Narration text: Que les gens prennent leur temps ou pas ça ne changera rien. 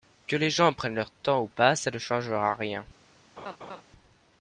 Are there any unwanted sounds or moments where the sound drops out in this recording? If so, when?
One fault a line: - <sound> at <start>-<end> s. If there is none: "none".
- laugh at 3.4-3.8 s